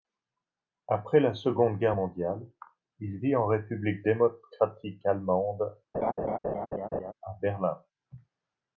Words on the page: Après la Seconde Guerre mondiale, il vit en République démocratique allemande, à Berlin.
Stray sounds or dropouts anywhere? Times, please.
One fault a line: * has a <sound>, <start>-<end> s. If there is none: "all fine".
* has a laugh, 5.9-7.1 s